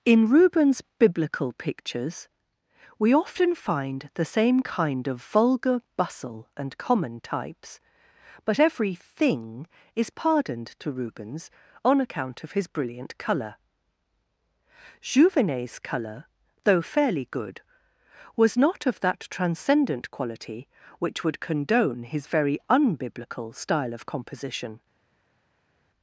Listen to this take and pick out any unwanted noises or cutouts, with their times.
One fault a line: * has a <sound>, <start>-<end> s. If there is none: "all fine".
all fine